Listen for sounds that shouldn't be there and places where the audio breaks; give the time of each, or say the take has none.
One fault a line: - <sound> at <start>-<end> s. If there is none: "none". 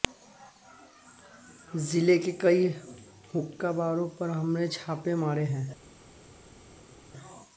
none